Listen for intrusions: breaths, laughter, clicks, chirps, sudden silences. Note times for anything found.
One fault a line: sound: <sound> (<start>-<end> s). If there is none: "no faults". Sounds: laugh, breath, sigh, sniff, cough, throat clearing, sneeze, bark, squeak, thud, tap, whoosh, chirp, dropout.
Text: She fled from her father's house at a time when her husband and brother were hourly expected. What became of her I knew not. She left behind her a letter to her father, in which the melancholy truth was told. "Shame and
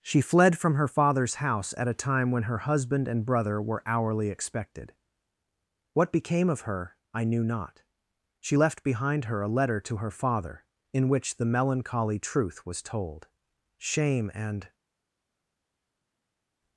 no faults